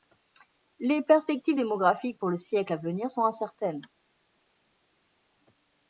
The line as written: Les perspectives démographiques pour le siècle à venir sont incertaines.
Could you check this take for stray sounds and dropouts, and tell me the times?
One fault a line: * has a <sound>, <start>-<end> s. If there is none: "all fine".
all fine